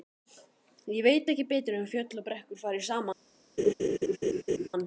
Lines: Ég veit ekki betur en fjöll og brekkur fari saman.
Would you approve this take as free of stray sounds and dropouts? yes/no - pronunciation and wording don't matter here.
no